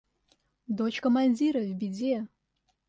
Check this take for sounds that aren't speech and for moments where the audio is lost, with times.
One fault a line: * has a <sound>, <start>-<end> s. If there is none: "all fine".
all fine